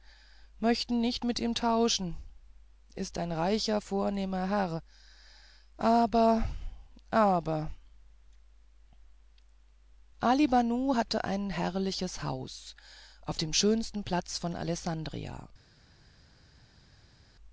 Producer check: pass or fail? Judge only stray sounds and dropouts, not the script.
pass